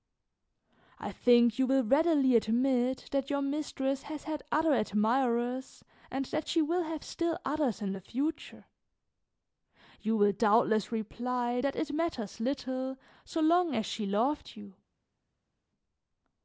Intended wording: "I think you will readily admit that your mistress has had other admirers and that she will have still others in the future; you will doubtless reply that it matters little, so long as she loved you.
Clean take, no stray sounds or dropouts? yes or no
yes